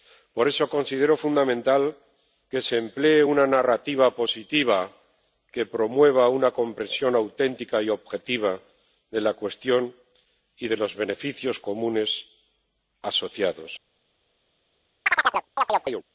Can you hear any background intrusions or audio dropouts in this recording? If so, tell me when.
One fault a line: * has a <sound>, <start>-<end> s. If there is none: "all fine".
* has a chirp, 15.1-16.0 s